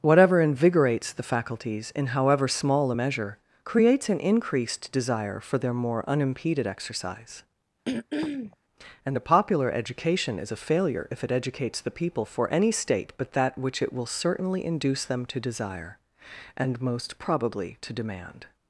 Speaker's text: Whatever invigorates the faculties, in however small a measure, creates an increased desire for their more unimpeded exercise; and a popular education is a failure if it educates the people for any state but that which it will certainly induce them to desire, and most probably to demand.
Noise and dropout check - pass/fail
fail